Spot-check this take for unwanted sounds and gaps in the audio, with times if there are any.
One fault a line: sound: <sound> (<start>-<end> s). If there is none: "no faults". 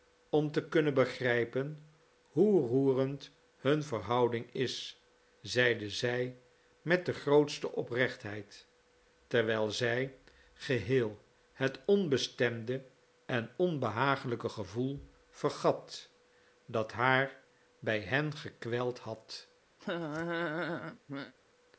sound: laugh (19.8-21.3 s)